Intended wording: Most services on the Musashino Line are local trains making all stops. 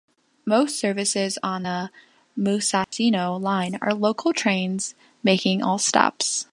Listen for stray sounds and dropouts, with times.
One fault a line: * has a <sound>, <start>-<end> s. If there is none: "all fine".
* has a dropout, 2.8-2.9 s